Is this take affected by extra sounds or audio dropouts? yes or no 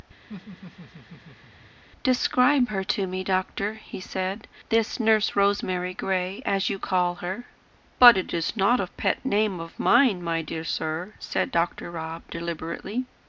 yes